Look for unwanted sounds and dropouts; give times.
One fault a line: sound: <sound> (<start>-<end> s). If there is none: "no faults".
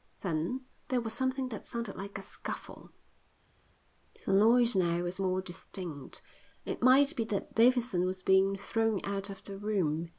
no faults